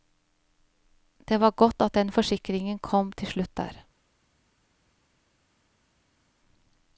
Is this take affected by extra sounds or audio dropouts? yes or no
no